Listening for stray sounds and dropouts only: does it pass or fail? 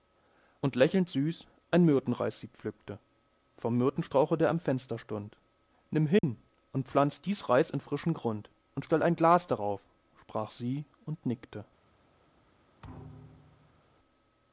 fail